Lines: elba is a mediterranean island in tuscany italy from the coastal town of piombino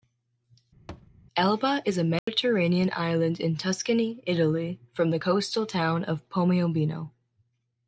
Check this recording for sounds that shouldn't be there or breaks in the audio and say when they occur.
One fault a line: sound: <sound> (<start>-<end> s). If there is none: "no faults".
sound: thud (0.9-1.1 s)
sound: dropout (2.2-2.3 s)